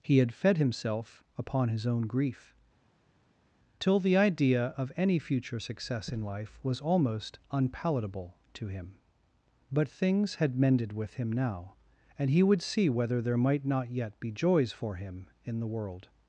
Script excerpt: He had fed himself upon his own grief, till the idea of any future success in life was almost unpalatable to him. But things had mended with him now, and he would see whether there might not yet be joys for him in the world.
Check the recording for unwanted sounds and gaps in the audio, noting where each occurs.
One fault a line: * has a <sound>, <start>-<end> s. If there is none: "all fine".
all fine